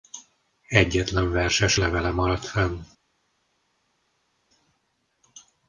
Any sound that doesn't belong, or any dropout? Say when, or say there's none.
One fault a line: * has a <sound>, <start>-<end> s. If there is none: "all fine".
all fine